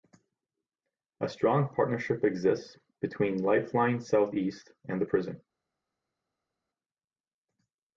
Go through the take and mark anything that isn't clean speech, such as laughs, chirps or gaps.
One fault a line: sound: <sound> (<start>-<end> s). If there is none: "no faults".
no faults